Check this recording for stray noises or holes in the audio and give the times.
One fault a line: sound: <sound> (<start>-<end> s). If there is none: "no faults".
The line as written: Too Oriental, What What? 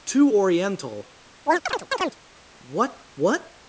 sound: chirp (1.5-2.2 s)